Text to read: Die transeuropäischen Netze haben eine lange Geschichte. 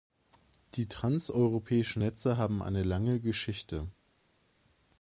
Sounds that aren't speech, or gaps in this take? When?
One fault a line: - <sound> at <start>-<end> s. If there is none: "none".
none